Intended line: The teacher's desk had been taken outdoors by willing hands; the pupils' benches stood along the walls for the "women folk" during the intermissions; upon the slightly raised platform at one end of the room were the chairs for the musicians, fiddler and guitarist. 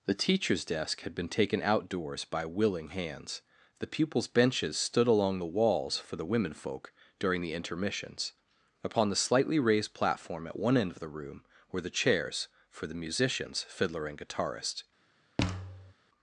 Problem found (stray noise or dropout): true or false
true